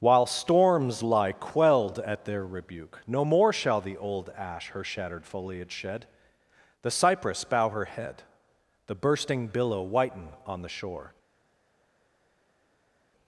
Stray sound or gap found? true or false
false